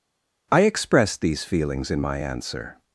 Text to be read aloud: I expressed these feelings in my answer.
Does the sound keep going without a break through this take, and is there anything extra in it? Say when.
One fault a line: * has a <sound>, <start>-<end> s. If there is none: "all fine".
all fine